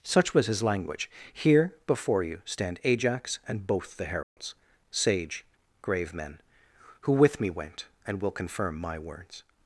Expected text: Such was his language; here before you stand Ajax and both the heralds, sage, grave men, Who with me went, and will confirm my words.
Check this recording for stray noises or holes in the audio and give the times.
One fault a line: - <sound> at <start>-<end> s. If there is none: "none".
- dropout at 4.2-4.4 s